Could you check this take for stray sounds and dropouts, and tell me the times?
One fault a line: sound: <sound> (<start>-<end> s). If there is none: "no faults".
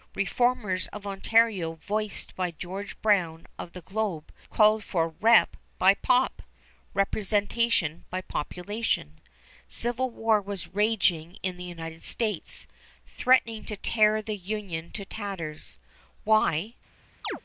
sound: chirp (17.2-17.4 s)